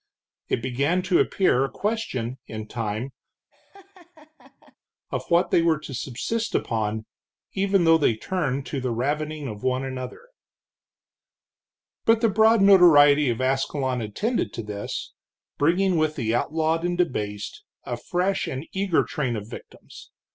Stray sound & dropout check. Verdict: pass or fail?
fail